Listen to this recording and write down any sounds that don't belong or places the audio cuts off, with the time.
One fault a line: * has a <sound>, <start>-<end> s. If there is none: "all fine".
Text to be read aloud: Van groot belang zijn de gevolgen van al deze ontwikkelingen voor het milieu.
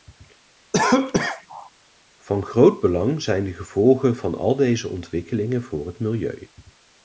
* has a cough, 0.7-1.7 s